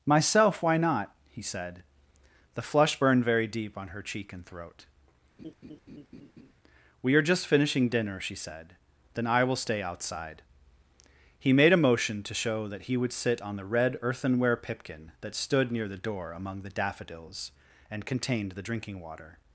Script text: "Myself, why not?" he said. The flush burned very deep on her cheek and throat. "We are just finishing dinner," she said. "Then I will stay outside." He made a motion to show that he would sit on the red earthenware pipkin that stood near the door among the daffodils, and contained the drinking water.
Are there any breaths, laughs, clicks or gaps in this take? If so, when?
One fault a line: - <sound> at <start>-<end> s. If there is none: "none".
- laugh at 5.4-6.5 s